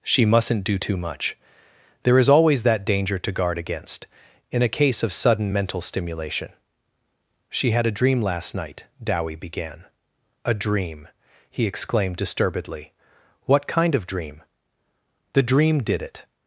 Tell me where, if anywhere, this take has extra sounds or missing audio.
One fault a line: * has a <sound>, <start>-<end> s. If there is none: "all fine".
all fine